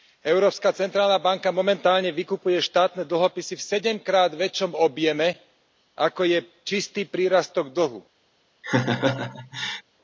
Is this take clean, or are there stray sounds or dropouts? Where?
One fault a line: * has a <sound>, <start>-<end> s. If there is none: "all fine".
* has a laugh, 8.6-9.8 s